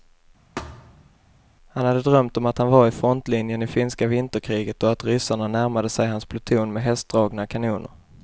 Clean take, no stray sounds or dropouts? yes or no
no